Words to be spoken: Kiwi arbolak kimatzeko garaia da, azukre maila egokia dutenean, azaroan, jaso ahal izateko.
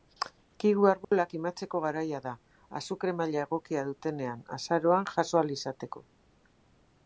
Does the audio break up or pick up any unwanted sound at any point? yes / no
yes